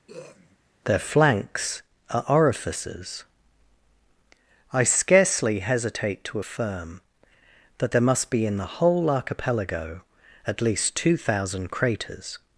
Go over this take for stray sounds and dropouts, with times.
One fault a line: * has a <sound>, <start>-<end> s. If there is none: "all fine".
* has a throat clearing, 0.1-0.6 s